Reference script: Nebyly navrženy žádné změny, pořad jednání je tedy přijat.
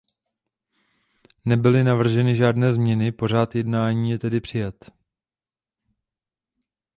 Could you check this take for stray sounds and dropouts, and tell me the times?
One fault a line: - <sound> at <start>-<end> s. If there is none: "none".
none